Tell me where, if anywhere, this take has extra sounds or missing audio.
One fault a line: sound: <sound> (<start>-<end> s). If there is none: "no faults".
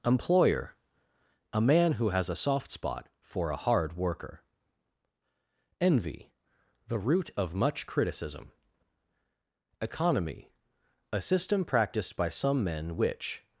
no faults